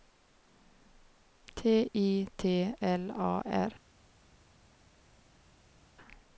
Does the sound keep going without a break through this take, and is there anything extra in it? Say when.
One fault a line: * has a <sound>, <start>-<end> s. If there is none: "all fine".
all fine